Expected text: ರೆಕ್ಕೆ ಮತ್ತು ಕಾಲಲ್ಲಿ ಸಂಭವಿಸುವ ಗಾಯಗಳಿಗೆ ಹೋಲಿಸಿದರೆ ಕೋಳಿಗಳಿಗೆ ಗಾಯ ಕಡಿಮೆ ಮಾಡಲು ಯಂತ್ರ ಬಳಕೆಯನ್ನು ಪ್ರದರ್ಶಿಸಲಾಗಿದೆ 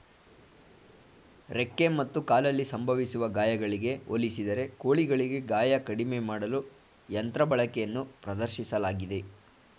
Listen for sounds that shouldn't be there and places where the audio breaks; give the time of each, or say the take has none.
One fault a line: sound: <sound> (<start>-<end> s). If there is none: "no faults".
no faults